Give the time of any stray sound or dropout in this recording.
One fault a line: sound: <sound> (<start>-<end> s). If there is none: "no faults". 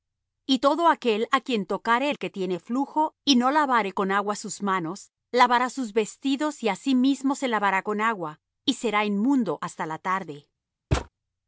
sound: thud (10.9-11.1 s)